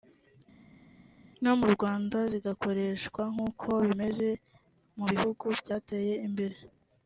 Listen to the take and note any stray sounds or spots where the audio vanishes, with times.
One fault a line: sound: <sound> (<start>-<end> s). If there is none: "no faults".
no faults